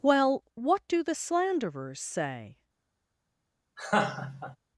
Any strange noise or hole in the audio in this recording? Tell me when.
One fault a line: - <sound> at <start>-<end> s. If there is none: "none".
- laugh at 3.8-4.6 s